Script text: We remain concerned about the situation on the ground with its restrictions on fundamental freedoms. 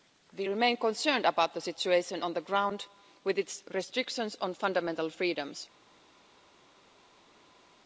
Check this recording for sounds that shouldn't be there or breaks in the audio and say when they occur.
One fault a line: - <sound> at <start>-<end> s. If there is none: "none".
none